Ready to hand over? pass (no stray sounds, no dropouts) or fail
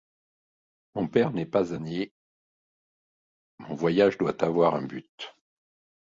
pass